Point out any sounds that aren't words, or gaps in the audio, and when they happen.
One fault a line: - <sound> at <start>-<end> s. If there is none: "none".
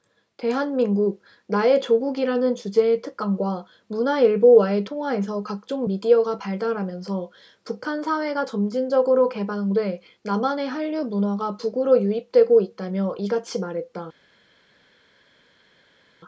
none